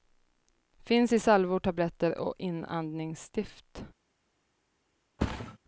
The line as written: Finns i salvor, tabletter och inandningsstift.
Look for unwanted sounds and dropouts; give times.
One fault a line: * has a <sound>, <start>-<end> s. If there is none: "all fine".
* has a thud, 5.2-5.6 s